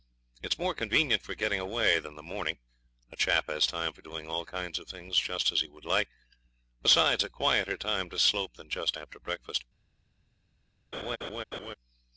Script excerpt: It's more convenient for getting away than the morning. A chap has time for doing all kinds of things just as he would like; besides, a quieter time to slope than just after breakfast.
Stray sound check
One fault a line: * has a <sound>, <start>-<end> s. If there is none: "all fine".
* has a laugh, 10.9-11.7 s